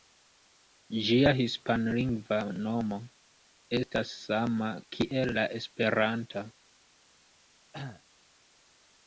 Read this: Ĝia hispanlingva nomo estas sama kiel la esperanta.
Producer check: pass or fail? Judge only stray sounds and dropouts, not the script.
fail